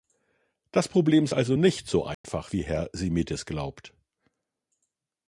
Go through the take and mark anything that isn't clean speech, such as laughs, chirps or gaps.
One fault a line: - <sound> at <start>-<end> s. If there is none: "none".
- dropout at 2.1-2.2 s